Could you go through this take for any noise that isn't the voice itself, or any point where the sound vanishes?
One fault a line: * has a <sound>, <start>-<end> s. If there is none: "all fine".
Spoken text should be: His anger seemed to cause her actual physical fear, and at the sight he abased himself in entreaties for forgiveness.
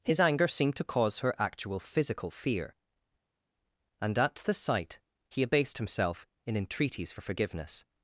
all fine